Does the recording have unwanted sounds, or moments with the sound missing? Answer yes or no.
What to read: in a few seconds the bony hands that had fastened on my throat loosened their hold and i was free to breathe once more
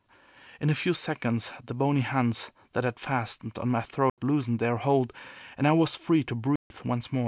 yes